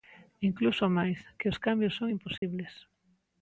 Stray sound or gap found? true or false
true